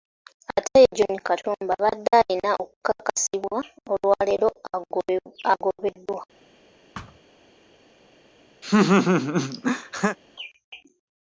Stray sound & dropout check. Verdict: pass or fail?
fail